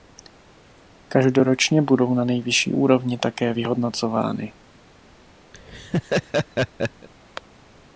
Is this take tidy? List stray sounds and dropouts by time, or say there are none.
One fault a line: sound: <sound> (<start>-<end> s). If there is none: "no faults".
sound: laugh (5.5-7.1 s)